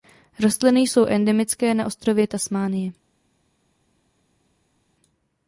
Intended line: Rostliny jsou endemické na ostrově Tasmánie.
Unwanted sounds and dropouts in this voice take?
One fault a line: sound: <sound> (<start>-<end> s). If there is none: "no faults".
no faults